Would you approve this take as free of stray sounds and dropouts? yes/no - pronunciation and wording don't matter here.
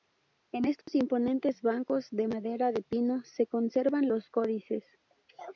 no